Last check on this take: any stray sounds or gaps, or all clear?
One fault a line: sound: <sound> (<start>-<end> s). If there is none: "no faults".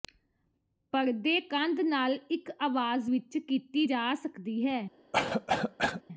sound: cough (5.1-6.0 s)